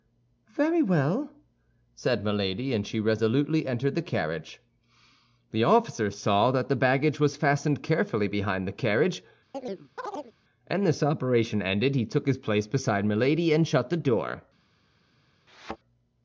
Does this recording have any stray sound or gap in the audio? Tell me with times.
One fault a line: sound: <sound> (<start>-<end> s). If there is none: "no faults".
sound: chirp (9.5-10.3 s)
sound: thud (15.5-15.8 s)